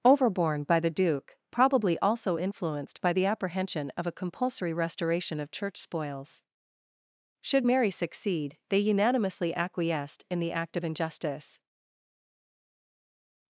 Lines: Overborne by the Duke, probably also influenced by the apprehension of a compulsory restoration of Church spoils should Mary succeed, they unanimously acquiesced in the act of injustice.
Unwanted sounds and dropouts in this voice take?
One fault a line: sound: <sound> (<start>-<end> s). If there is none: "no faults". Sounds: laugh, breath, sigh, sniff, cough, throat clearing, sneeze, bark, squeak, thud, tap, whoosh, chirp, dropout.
no faults